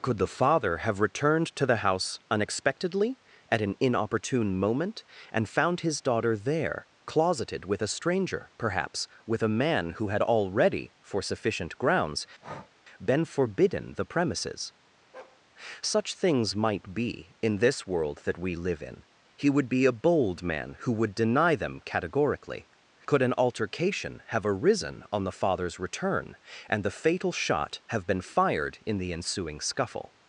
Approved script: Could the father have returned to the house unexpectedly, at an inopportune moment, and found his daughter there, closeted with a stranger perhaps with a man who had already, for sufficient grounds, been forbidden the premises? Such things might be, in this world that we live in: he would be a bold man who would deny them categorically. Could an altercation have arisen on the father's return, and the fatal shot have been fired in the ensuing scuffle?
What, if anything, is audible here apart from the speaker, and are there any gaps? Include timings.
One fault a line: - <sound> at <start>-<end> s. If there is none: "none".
- breath at 12.4-12.7 s
- bark at 15.1-15.4 s